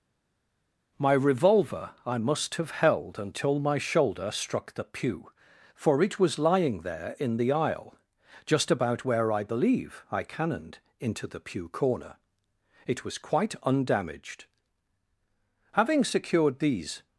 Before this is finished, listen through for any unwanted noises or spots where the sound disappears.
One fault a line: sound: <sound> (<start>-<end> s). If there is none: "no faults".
no faults